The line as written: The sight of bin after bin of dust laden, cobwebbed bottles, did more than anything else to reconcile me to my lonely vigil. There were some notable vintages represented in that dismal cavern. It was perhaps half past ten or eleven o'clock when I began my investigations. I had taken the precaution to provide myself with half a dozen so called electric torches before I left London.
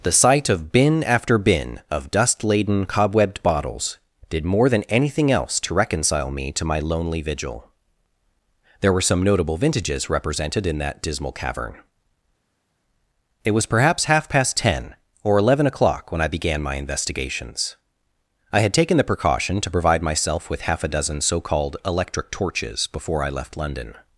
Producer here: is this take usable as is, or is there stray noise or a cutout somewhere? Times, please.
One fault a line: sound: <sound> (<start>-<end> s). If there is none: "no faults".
no faults